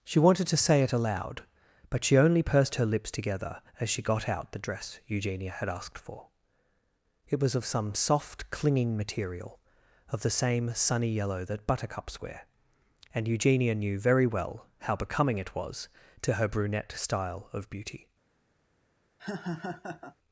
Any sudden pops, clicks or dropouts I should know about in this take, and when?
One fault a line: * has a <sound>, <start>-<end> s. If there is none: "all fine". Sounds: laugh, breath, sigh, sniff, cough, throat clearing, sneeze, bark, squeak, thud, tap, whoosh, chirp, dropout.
* has a laugh, 19.2-20.2 s